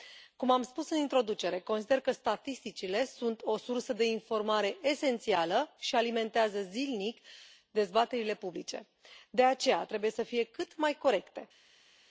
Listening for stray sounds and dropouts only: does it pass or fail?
pass